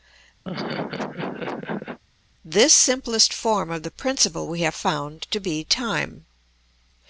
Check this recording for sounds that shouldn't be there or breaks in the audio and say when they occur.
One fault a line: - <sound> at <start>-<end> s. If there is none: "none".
- laugh at 0.4-2.0 s